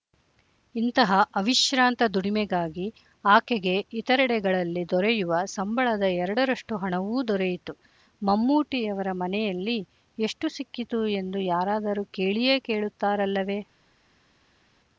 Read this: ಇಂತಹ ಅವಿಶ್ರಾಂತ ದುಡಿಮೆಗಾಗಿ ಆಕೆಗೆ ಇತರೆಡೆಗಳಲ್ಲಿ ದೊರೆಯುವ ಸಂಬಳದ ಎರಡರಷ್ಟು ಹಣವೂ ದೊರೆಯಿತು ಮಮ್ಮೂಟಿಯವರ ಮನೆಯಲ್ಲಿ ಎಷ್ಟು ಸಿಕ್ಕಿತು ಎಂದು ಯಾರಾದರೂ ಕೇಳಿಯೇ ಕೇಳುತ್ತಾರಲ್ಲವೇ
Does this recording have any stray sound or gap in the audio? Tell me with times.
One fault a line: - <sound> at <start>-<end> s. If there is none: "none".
none